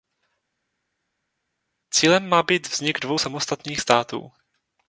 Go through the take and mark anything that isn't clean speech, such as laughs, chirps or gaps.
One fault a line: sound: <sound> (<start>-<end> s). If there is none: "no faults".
no faults